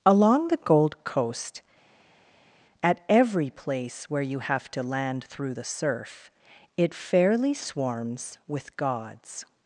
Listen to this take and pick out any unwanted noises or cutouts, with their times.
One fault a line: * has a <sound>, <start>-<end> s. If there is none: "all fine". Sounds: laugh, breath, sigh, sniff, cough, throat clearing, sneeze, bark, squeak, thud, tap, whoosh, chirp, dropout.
all fine